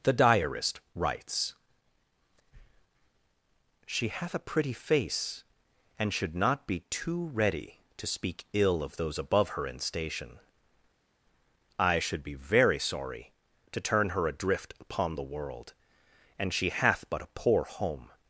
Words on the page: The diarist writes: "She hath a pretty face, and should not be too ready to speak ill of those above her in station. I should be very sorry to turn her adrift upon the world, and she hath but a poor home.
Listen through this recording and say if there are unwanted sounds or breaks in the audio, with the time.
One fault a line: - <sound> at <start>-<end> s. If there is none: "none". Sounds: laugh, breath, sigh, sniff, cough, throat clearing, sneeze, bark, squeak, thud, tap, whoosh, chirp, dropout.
none